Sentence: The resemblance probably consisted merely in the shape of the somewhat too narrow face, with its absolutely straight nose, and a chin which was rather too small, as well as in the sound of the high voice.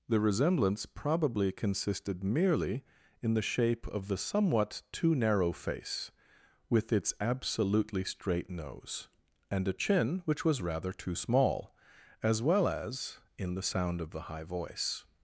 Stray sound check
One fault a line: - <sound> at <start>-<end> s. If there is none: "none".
none